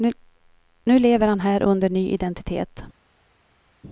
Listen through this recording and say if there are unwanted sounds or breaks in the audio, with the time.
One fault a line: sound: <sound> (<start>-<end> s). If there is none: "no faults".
no faults